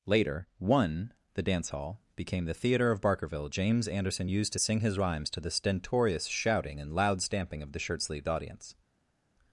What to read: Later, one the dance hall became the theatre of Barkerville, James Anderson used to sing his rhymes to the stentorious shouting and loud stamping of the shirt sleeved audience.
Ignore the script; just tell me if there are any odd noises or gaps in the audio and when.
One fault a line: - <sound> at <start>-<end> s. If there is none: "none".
none